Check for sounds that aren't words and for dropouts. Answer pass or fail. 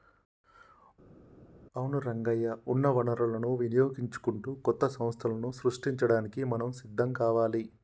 pass